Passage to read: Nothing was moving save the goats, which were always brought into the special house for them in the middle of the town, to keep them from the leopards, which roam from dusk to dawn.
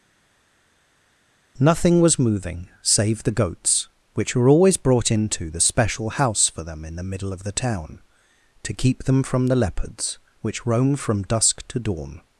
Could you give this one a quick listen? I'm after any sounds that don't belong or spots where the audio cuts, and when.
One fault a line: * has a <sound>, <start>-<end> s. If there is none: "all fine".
all fine